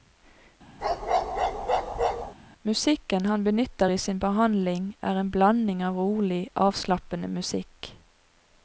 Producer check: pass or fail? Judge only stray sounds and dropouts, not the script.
fail